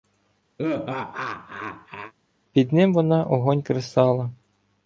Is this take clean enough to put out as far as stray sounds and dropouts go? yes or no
no